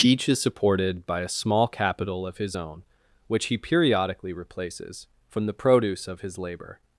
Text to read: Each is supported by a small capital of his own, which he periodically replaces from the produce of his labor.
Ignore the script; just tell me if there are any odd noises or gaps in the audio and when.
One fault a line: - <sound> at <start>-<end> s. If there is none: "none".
none